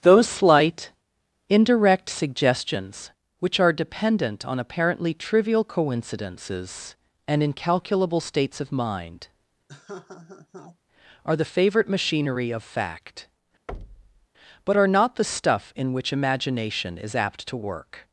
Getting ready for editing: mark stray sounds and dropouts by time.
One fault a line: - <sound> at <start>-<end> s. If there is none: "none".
- laugh at 9.7-10.8 s
- thud at 13.7-14.3 s